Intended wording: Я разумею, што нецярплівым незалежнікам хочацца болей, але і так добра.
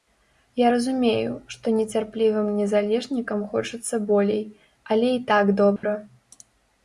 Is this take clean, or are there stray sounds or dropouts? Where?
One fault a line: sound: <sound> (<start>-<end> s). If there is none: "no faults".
sound: dropout (5.8-5.8 s)